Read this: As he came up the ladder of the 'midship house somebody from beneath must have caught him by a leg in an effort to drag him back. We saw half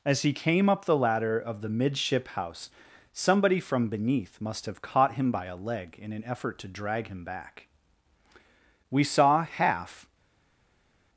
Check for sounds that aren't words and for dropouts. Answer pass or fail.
pass